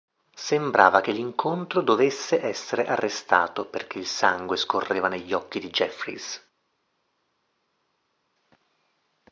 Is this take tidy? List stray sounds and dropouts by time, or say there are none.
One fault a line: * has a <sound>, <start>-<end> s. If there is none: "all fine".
all fine